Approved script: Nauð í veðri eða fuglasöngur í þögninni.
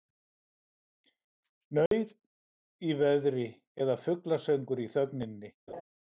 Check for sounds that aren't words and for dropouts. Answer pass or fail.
fail